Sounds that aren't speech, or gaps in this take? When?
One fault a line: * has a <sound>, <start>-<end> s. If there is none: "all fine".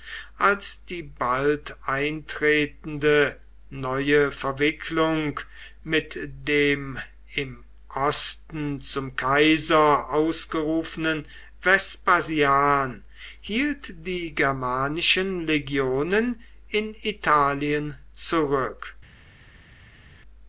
all fine